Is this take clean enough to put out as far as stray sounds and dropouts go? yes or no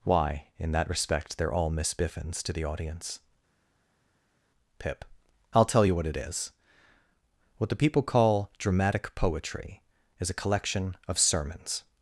yes